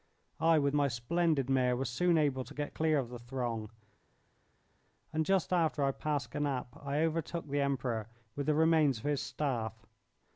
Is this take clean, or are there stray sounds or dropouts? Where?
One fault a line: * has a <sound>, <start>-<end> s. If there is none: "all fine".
all fine